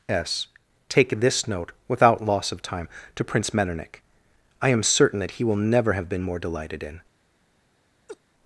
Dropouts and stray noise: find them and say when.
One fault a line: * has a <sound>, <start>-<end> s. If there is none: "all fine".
* has a laugh, 8.1-8.2 s